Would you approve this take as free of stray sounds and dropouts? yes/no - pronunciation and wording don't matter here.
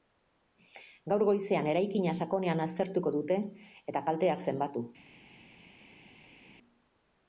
yes